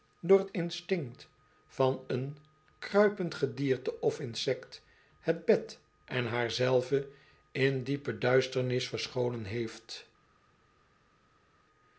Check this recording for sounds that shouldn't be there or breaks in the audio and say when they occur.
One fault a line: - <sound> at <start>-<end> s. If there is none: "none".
none